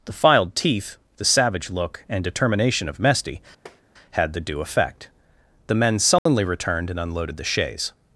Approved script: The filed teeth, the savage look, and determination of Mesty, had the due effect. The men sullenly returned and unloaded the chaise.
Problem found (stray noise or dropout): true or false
true